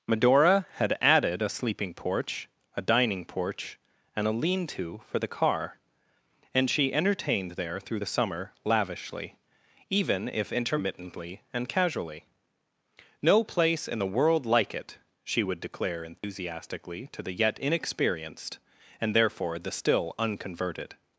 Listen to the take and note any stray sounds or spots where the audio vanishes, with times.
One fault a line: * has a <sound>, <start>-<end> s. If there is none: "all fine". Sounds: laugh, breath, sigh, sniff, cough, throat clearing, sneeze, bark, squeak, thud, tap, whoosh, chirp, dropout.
* has a dropout, 16.2-16.2 s